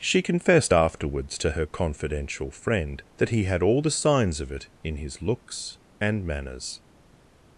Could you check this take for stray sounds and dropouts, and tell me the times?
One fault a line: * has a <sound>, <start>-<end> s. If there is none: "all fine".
all fine